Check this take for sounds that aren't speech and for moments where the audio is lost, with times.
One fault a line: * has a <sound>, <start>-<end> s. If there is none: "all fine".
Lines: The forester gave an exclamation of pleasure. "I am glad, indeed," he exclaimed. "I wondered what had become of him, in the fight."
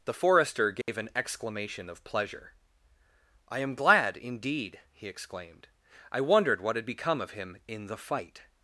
* has a dropout, 0.8-0.9 s